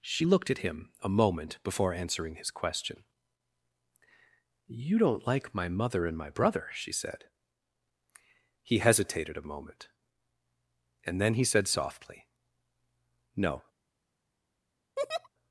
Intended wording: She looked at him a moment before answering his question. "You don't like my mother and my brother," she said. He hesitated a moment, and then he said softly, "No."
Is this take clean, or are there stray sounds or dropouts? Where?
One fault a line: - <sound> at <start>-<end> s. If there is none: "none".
- laugh at 15.0-15.3 s